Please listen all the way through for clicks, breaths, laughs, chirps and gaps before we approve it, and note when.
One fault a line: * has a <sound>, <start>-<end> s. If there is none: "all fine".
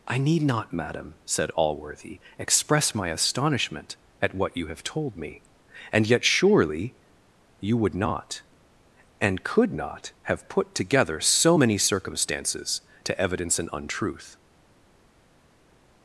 all fine